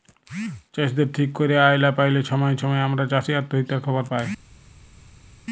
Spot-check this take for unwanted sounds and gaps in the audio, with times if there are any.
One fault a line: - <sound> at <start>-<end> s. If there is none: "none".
none